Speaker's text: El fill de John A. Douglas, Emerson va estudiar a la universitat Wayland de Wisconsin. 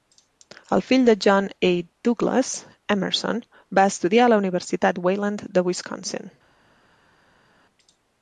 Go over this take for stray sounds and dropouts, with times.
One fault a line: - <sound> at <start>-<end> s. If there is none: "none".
none